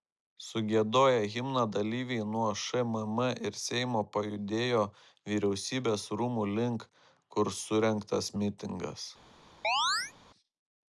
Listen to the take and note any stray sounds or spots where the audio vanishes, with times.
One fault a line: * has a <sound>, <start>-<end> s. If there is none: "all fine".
* has a chirp, 9.6-10.1 s